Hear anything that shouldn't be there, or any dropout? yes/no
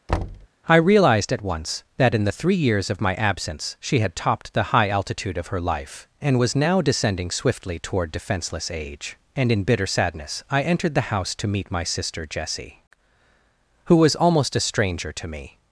yes